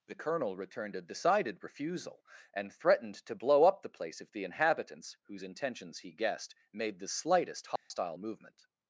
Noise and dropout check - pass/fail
fail